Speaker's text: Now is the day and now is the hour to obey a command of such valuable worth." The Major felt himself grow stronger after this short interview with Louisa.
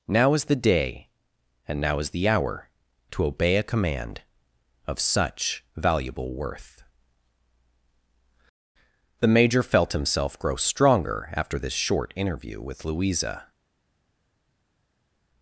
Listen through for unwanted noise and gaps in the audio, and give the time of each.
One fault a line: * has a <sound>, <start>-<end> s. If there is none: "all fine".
all fine